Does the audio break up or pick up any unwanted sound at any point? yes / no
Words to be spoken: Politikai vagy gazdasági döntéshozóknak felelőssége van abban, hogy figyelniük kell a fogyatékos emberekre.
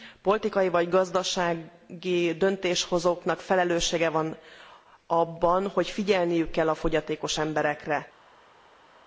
no